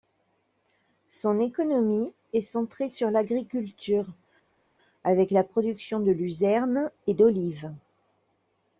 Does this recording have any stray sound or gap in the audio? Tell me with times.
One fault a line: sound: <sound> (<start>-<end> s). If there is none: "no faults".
no faults